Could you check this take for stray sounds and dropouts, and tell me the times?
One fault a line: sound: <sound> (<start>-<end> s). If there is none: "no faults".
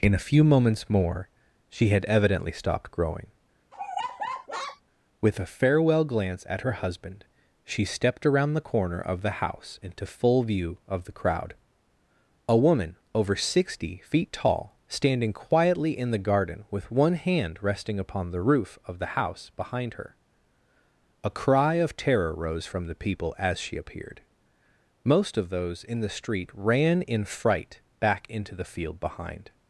sound: laugh (3.7-4.8 s)